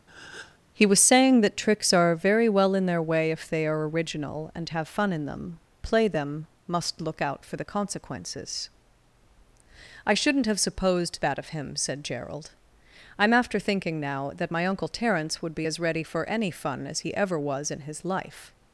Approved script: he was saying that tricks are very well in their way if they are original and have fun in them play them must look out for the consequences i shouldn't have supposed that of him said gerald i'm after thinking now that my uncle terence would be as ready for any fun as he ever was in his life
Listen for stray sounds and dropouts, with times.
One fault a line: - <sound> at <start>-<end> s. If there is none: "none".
- breath at 0.1-0.6 s